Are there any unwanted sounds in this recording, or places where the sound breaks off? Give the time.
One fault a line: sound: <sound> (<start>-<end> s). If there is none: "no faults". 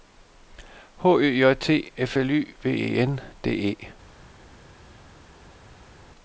no faults